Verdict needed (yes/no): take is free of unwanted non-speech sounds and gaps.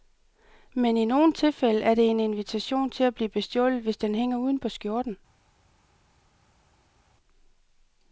yes